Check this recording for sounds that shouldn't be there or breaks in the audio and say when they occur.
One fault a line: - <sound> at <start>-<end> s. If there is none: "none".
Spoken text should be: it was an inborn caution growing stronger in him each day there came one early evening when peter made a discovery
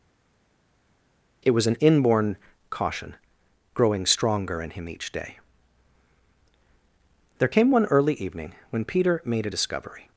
none